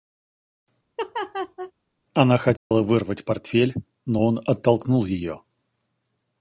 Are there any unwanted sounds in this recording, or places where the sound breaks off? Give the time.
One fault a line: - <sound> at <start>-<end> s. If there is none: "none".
- laugh at 1.0-1.7 s
- dropout at 2.6-2.7 s